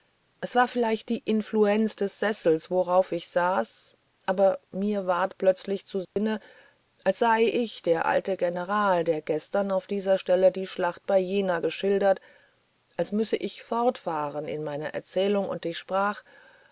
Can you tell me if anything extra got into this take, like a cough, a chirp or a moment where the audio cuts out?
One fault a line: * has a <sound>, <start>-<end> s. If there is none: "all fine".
* has a dropout, 6.1-6.2 s